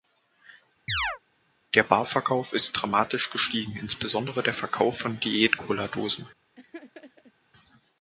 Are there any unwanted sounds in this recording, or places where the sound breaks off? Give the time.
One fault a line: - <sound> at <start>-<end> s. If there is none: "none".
- chirp at 0.9-1.2 s
- laugh at 6.5-7.3 s